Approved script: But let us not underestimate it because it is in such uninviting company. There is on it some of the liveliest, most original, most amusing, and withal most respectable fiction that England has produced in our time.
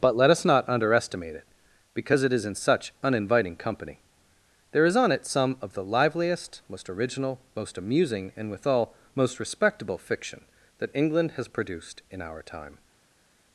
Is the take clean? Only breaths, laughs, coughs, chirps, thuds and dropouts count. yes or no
yes